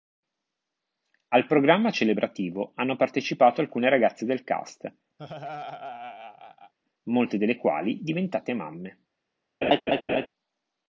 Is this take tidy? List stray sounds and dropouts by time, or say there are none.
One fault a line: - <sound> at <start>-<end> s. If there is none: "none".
- laugh at 5.2-6.7 s
- laugh at 9.6-10.3 s